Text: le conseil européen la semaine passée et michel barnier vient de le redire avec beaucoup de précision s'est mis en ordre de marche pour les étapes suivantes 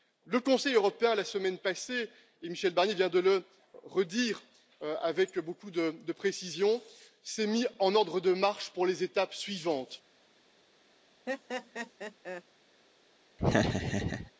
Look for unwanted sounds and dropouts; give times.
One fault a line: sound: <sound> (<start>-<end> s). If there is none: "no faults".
sound: laugh (11.3-12.4 s)
sound: laugh (13.4-14.3 s)